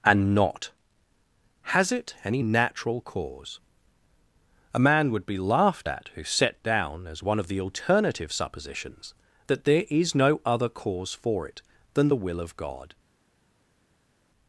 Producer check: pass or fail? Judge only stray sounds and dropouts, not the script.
pass